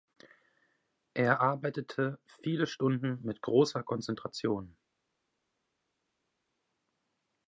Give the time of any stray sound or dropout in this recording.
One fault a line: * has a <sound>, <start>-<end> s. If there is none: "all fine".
all fine